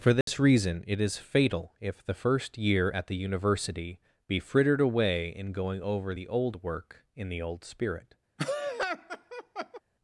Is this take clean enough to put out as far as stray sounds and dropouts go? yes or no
no